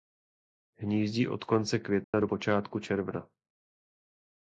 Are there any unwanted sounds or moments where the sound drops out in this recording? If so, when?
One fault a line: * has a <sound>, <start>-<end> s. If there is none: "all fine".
* has a dropout, 2.0-2.1 s